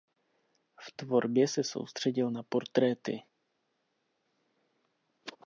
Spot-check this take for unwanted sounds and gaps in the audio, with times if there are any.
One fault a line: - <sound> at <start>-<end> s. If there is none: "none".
none